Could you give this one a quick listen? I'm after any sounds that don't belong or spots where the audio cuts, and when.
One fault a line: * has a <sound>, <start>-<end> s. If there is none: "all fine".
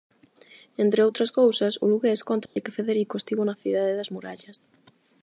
* has a dropout, 2.5-2.6 s